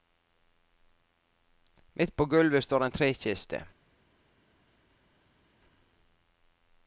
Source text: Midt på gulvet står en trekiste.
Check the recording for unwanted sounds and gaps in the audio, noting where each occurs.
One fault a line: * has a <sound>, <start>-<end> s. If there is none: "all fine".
all fine